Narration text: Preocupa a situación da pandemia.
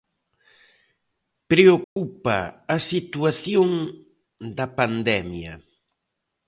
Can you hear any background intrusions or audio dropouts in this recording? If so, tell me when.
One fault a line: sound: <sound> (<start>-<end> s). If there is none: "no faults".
sound: dropout (1.8-2.0 s)